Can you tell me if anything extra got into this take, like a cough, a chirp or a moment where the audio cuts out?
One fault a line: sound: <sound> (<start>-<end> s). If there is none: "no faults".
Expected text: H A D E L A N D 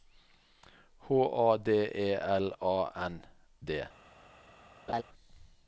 sound: laugh (4.9-5.0 s)